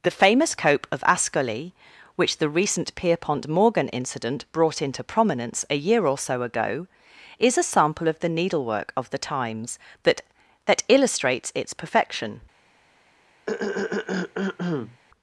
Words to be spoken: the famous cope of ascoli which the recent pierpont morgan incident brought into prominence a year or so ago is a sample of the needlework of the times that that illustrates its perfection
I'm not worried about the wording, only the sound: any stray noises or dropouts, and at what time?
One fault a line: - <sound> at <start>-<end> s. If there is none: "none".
- throat clearing at 13.5-15.0 s